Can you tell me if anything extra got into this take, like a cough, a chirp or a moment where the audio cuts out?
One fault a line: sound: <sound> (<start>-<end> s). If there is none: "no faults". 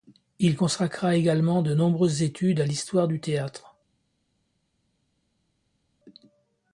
no faults